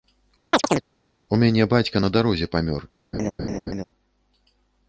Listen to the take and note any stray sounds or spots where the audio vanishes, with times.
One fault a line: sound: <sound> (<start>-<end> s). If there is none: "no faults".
sound: chirp (0.5-0.8 s)
sound: laugh (3.1-3.8 s)